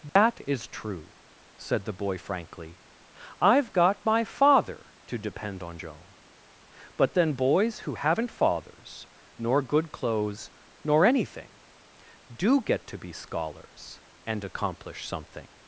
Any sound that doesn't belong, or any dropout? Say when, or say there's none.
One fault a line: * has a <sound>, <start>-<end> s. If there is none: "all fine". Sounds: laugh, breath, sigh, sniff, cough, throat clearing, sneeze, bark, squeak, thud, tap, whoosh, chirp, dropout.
* has a dropout, 0.1-0.2 s